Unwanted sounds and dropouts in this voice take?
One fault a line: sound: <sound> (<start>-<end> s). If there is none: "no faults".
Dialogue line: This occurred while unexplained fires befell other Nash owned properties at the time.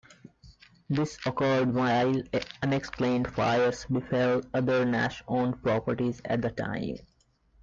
no faults